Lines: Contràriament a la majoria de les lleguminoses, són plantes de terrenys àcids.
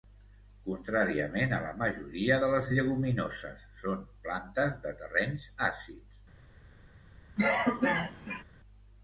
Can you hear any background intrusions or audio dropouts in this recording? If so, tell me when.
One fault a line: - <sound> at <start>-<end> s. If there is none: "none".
- cough at 7.4-8.4 s